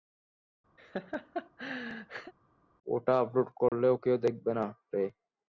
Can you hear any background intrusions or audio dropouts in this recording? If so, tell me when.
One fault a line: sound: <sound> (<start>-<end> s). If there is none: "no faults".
sound: laugh (0.8-2.3 s)
sound: dropout (3.7-3.7 s)